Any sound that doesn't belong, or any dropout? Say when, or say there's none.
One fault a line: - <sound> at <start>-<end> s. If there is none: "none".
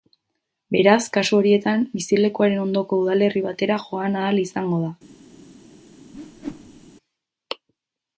- whoosh at 6.1-6.9 s